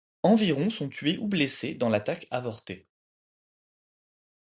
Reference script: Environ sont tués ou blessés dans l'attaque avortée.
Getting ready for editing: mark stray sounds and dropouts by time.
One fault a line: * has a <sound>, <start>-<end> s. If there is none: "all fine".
all fine